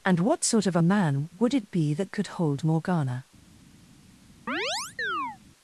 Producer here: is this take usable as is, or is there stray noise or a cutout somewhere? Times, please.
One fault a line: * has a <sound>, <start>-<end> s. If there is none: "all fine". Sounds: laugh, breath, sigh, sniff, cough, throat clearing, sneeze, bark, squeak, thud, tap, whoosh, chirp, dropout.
* has a chirp, 4.5-5.4 s